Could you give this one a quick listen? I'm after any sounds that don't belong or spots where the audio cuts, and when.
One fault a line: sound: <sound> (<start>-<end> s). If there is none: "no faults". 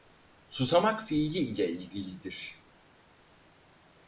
no faults